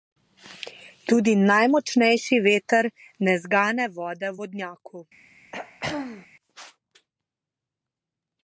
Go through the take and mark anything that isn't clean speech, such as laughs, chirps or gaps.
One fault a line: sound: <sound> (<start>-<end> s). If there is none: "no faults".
sound: throat clearing (5.5-6.3 s)